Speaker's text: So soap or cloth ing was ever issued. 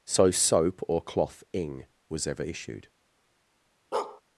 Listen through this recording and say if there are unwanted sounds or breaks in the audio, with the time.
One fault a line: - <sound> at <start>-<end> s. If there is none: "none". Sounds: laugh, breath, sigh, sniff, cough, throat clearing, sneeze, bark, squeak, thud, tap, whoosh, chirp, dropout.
- bark at 3.9-4.2 s